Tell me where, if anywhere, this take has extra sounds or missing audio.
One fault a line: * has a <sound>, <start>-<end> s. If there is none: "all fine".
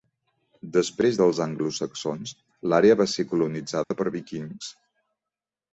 * has a dropout, 3.8-3.9 s